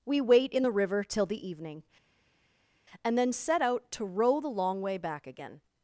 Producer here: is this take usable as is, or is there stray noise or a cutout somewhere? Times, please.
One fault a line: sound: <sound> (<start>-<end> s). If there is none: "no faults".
no faults